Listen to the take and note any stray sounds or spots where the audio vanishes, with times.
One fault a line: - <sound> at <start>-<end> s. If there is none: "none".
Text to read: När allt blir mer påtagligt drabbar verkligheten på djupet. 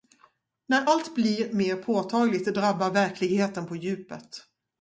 none